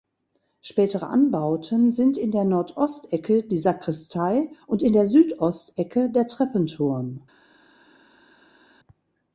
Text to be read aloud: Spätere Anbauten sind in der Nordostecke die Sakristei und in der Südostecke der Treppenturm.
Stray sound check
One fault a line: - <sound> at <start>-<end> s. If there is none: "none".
none